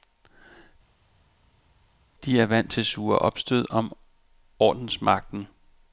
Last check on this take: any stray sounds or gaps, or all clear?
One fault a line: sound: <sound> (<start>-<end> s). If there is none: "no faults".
no faults